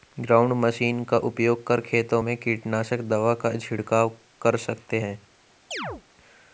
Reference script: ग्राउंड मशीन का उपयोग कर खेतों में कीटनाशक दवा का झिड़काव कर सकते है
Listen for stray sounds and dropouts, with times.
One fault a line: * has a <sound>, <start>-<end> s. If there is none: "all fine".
* has a chirp, 5.7-6.0 s